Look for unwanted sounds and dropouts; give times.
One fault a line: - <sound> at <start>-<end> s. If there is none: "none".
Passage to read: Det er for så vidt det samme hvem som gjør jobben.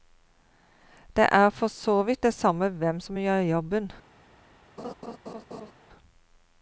- laugh at 4.8-5.7 s